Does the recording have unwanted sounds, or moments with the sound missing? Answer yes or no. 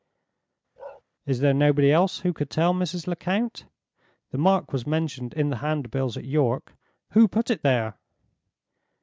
yes